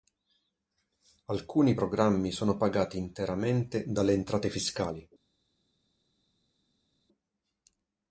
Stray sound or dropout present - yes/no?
no